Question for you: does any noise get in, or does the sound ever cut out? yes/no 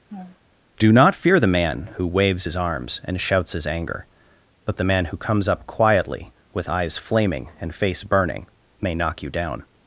yes